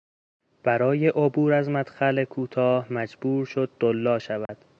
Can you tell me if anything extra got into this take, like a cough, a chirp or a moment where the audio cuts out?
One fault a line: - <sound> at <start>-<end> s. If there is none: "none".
- dropout at 4.5-4.5 s